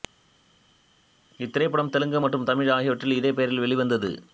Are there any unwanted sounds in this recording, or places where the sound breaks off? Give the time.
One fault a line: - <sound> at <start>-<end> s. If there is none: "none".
none